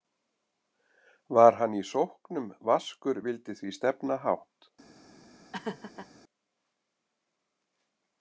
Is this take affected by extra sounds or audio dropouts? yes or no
yes